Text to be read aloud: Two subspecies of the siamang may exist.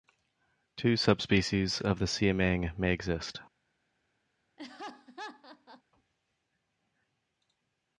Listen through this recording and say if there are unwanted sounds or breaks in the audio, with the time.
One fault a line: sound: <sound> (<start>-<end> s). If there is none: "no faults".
sound: laugh (4.6-5.8 s)